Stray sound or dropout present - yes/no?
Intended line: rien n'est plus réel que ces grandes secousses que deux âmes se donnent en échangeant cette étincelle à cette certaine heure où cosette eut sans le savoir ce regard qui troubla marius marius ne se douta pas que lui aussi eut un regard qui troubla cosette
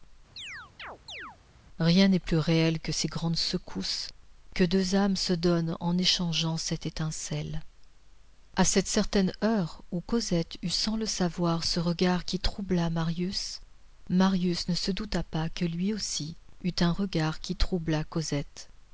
yes